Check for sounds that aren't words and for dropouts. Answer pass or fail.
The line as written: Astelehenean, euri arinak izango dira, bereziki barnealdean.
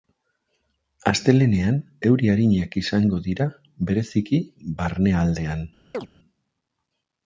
fail